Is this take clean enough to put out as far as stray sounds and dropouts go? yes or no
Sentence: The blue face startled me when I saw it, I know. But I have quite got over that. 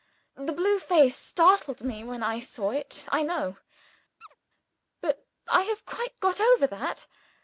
no